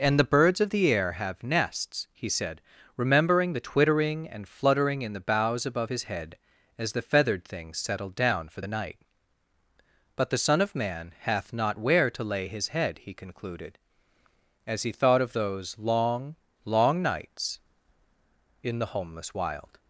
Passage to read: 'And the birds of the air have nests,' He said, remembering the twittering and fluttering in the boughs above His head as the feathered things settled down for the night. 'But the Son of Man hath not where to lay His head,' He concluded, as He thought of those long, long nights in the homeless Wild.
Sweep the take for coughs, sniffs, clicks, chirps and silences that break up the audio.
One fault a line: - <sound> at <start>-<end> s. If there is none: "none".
none